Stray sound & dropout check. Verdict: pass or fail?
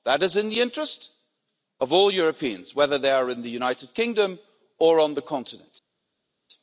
pass